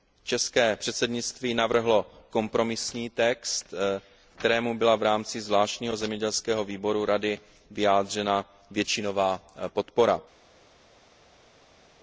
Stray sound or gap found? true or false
false